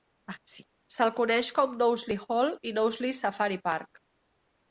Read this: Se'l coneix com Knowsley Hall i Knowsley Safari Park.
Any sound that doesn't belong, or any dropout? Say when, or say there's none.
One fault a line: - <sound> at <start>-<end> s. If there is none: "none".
none